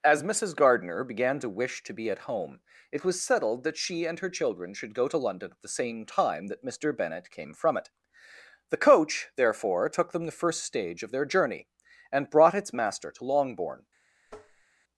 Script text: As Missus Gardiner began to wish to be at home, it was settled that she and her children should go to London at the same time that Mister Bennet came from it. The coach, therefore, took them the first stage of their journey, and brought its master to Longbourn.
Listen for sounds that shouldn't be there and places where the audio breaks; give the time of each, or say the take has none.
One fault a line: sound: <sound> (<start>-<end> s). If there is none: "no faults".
sound: tap (14.3-14.7 s)